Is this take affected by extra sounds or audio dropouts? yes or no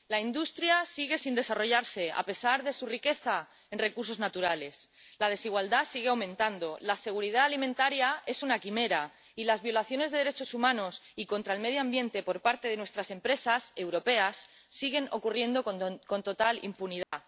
yes